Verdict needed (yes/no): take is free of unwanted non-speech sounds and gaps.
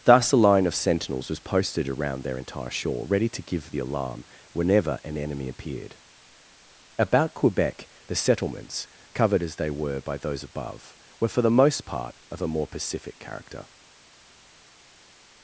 yes